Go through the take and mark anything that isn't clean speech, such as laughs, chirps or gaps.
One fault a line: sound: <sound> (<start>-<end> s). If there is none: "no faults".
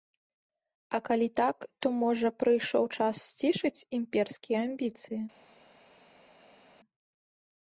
no faults